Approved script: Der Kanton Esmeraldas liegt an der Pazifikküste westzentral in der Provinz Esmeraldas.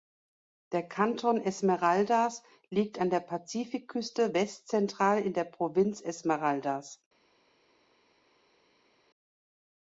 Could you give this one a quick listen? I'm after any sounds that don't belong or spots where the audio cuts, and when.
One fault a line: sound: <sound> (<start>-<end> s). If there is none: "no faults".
no faults